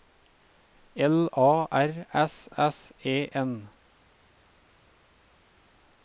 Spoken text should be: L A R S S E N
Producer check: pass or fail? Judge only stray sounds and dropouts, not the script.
pass